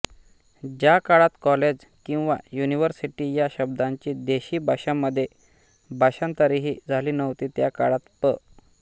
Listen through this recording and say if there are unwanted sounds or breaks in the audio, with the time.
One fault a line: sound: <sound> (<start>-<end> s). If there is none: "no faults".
no faults